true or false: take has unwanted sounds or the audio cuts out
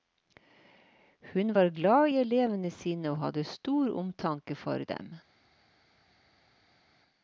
false